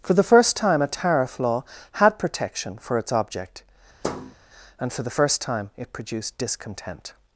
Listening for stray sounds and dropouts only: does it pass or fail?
fail